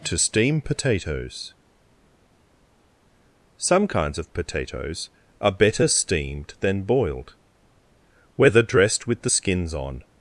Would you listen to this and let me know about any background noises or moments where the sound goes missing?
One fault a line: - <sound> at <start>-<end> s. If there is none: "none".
none